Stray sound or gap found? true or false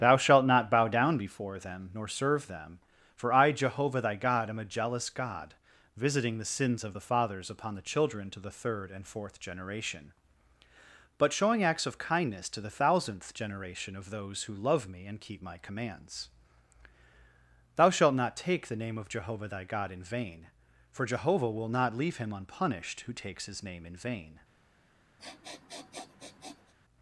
true